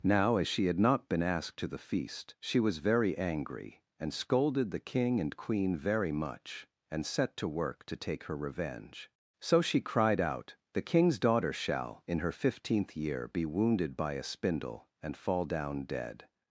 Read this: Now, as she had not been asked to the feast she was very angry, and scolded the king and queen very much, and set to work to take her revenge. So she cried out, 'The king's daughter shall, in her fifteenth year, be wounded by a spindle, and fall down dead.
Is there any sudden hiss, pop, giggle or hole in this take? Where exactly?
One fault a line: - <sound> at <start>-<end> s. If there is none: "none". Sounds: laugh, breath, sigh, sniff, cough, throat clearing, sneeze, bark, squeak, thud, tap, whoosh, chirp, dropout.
none